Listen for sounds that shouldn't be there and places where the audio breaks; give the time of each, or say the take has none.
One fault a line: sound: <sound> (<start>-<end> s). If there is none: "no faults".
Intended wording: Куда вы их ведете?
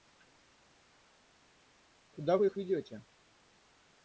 no faults